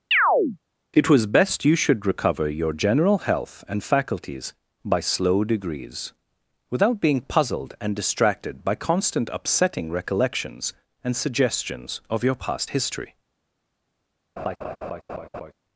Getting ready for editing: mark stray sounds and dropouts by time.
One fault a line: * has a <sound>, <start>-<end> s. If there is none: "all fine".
* has a chirp, 0.1-0.6 s
* has a laugh, 14.4-15.5 s